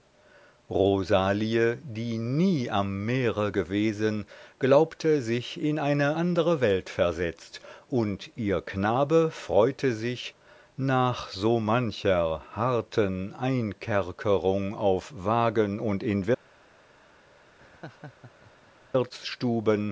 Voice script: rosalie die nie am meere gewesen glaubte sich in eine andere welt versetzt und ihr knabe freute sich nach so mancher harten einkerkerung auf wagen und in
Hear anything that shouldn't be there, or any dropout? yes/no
yes